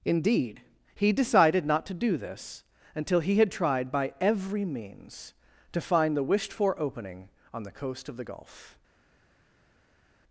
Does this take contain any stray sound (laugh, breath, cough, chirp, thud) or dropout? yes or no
no